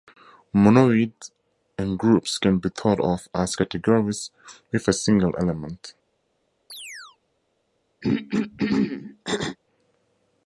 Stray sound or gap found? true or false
true